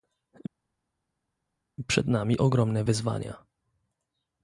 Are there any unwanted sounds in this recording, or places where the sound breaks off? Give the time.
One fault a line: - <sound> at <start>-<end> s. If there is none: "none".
none